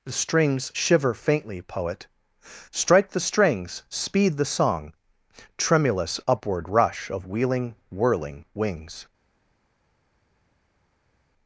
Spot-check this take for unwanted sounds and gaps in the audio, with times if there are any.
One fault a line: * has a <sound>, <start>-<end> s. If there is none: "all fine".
all fine